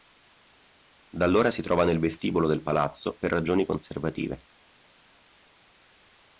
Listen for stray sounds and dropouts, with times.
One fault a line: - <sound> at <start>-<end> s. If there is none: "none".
none